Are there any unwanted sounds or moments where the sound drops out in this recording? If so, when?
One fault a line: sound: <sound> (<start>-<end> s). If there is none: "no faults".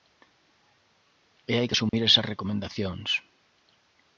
sound: dropout (1.9-1.9 s)